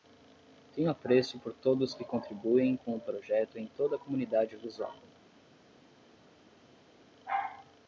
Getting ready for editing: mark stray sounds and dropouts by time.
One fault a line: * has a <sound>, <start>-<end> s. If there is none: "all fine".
all fine